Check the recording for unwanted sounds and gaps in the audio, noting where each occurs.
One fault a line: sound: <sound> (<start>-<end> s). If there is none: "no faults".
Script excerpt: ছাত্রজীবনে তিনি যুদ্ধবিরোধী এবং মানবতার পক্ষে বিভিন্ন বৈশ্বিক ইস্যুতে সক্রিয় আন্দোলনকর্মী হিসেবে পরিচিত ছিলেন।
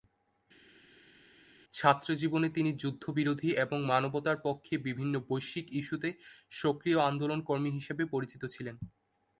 no faults